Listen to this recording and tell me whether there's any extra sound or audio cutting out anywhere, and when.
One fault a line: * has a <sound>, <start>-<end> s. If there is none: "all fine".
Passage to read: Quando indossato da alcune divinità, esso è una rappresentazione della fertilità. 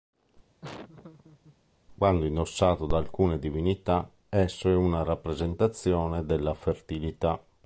* has a laugh, 0.6-1.6 s